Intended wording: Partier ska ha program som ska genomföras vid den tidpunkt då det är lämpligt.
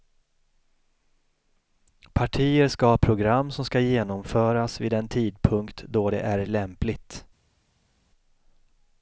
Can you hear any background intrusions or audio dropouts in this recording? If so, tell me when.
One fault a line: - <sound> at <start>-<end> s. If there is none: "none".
none